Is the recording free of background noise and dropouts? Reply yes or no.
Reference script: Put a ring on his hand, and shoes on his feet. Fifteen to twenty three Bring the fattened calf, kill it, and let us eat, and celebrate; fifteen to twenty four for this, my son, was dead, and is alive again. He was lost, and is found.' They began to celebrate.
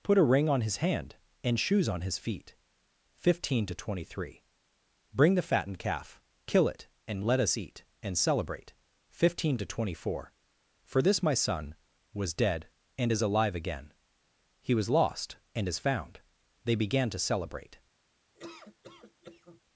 no